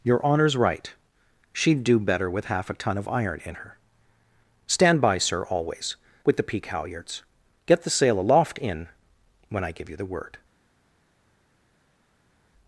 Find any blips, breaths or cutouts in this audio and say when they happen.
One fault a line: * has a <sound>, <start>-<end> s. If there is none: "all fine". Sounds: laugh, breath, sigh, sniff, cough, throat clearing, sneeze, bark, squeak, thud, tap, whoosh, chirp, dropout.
all fine